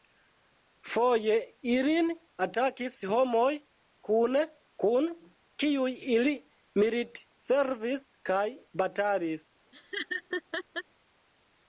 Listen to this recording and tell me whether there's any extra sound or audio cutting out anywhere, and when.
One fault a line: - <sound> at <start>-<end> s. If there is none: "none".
- laugh at 9.7-10.8 s